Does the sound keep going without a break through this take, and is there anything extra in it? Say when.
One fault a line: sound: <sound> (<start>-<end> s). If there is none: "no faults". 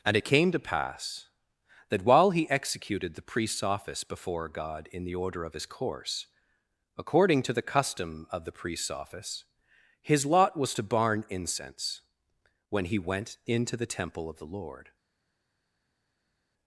no faults